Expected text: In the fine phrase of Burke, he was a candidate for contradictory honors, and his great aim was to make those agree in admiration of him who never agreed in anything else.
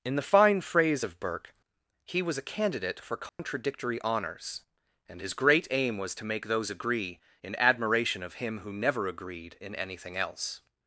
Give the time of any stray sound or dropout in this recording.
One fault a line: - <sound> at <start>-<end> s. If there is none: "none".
- dropout at 3.3-3.4 s